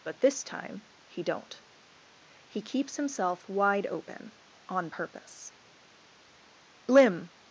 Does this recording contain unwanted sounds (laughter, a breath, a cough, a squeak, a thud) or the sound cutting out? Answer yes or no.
no